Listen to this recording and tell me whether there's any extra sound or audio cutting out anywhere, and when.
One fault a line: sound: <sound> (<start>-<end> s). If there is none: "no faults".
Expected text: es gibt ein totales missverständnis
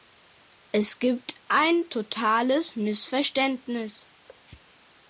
sound: thud (4.3-4.5 s)